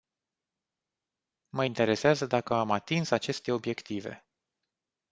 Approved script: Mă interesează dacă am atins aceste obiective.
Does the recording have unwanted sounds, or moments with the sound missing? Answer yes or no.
no